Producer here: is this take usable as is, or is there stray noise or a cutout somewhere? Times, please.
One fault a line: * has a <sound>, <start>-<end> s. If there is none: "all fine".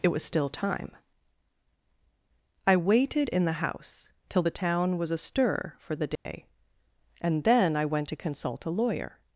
* has a dropout, 6.2-6.3 s